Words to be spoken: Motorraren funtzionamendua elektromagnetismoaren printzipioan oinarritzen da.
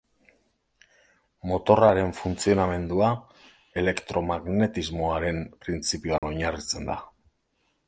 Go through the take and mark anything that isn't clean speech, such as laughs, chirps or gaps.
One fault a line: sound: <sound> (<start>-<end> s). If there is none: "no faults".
sound: dropout (6.2-6.2 s)